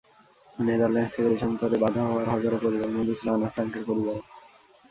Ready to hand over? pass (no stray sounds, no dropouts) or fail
pass